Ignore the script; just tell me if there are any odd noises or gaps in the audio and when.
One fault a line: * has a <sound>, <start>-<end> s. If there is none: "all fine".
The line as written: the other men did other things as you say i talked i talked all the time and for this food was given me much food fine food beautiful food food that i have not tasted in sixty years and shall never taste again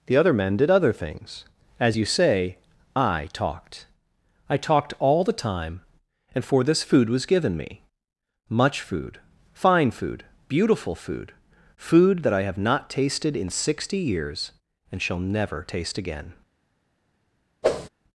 * has a whoosh, 17.6-17.9 s